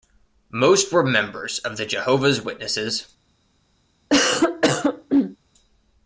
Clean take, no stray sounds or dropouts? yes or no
no